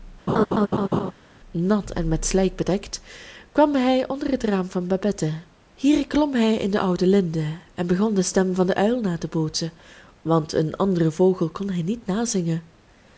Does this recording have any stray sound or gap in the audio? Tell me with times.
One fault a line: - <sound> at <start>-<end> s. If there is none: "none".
- laugh at 0.3-1.1 s